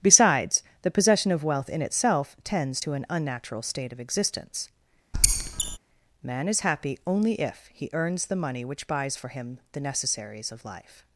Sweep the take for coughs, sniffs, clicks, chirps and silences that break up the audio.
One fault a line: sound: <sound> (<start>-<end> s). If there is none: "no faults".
sound: squeak (5.1-5.8 s)